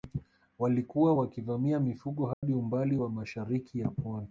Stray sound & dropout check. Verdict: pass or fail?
fail